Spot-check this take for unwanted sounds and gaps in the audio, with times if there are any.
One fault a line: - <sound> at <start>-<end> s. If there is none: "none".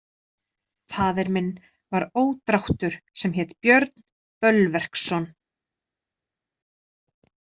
none